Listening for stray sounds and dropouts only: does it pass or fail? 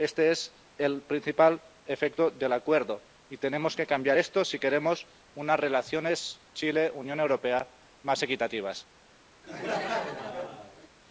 fail